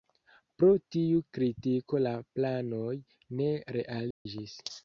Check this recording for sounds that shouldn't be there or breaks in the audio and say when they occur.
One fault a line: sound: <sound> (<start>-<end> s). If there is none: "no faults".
sound: dropout (4.1-4.3 s)